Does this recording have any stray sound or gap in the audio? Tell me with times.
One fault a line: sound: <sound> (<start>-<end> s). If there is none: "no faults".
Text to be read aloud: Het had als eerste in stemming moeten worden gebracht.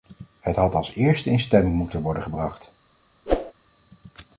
sound: whoosh (3.3-3.5 s)